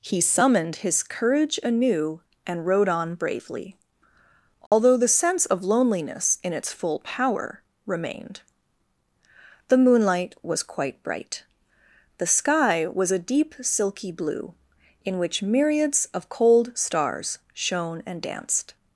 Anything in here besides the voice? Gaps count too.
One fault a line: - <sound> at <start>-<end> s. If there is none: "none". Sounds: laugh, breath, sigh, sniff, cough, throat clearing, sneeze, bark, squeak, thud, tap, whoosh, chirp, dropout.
- dropout at 4.7-4.7 s